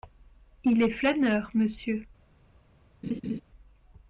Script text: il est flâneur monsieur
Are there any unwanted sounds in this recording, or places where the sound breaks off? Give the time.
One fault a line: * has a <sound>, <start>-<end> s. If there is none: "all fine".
* has a laugh, 3.0-3.4 s